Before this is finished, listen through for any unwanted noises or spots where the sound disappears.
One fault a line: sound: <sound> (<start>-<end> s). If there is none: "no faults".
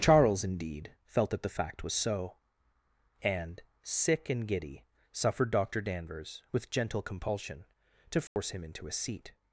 sound: dropout (8.3-8.4 s)